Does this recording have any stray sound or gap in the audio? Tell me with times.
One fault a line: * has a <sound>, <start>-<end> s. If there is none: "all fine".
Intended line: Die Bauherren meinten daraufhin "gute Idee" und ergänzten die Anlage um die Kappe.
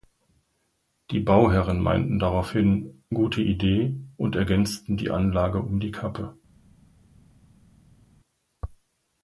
all fine